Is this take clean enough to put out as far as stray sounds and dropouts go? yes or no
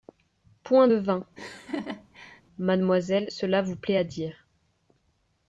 no